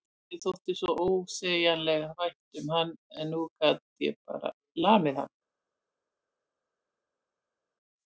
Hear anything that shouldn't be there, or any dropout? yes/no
no